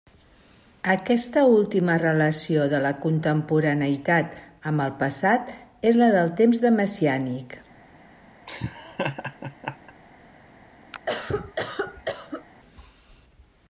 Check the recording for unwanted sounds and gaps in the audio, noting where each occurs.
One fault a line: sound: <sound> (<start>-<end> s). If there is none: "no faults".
sound: laugh (8.5-9.9 s)
sound: cough (10.9-12.4 s)